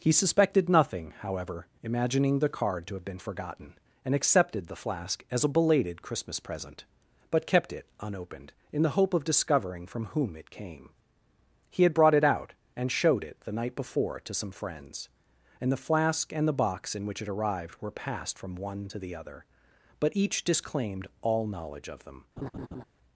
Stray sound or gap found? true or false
true